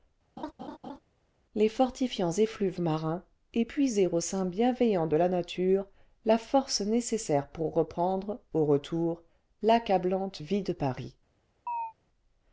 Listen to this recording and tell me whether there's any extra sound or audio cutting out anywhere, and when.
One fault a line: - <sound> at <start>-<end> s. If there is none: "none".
- laugh at 0.4-1.0 s
- chirp at 11.7-11.9 s